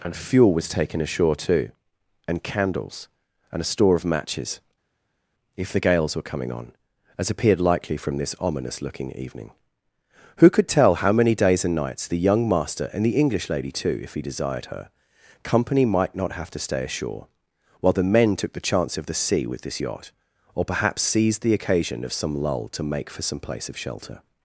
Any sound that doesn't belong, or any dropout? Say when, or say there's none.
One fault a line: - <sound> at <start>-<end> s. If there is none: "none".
none